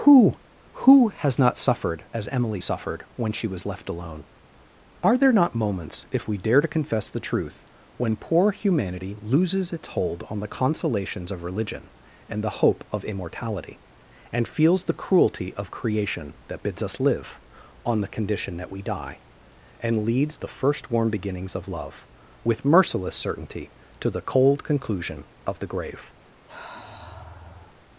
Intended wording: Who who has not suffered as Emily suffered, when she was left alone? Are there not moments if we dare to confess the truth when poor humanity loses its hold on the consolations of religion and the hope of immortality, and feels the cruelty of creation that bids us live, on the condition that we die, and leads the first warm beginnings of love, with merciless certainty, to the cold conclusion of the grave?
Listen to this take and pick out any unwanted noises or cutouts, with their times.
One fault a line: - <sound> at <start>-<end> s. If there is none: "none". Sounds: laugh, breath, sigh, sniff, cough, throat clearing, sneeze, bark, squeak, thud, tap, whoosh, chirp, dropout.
- sniff at 26.5-27.7 s